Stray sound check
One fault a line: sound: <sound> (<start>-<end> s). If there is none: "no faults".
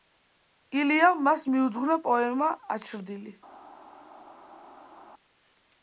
no faults